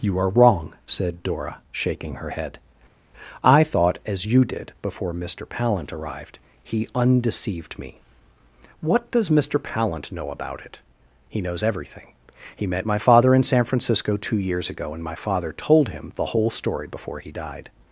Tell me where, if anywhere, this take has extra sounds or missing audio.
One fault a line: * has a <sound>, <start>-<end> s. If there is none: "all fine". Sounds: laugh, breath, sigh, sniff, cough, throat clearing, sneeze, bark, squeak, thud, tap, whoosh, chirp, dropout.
all fine